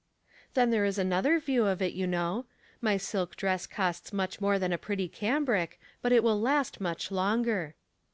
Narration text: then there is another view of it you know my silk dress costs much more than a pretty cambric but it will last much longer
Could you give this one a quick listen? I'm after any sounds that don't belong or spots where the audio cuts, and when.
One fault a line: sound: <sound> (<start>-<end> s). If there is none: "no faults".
no faults